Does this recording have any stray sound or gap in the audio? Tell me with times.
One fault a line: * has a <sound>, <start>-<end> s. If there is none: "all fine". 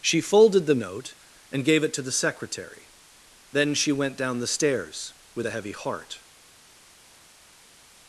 all fine